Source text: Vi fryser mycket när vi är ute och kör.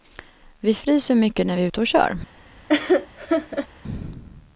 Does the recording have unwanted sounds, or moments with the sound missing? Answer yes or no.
yes